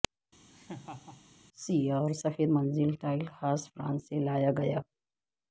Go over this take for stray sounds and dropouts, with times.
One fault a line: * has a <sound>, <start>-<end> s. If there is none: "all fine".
* has a laugh, 0.5-1.2 s